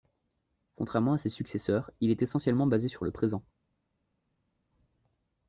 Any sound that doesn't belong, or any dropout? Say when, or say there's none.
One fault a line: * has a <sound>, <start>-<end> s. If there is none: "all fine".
all fine